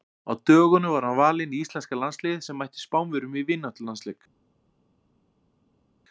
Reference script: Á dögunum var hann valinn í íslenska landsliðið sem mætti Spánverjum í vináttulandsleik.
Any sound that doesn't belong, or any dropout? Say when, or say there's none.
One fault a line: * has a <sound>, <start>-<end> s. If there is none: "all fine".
all fine